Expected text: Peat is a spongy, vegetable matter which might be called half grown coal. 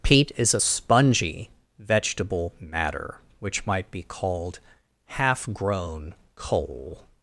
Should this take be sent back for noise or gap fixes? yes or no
no